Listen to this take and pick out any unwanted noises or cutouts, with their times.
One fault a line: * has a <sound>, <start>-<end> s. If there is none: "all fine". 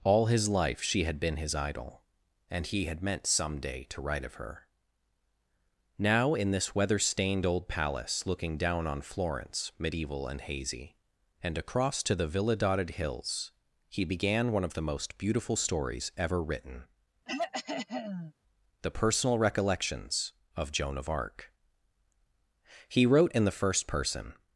* has a throat clearing, 17.3-18.3 s